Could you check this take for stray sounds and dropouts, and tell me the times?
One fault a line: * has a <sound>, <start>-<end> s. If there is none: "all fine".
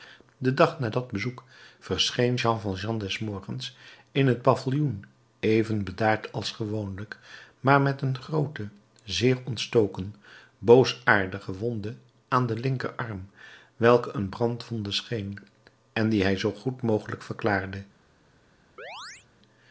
* has a chirp, 18.8-19.3 s